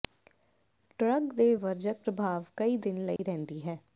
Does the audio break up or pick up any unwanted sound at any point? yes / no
yes